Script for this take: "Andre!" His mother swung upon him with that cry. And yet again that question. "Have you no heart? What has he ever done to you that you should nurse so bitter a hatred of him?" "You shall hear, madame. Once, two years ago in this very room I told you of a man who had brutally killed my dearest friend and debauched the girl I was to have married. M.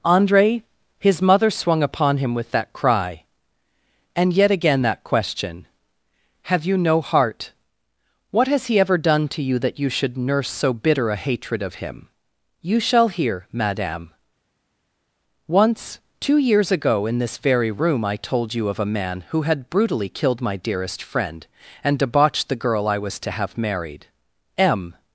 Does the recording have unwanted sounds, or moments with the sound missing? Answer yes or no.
no